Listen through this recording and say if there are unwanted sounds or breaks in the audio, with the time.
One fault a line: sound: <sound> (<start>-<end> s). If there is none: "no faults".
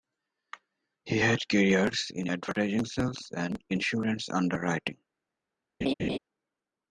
sound: laugh (5.8-6.2 s)